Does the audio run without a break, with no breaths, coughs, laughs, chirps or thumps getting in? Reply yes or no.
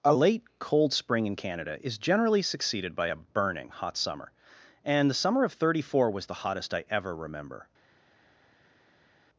yes